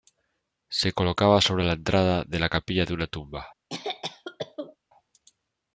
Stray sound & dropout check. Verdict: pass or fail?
fail